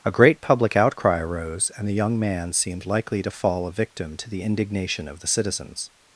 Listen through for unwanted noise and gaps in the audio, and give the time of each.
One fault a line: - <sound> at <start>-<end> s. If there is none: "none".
none